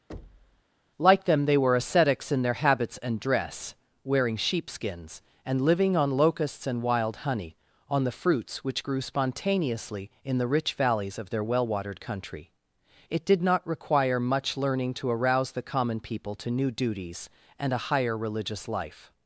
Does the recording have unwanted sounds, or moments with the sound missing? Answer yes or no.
yes